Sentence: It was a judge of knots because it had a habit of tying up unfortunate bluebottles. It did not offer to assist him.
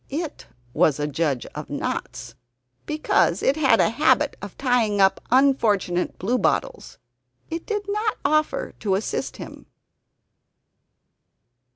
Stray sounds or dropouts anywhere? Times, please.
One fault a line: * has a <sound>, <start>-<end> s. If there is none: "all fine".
all fine